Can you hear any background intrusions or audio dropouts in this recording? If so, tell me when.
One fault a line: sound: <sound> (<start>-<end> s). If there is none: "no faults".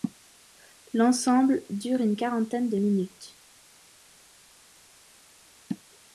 no faults